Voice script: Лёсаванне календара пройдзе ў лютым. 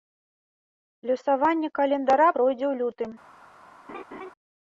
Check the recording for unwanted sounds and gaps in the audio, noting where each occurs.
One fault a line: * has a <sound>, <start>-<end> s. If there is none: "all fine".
* has a laugh, 3.9-4.3 s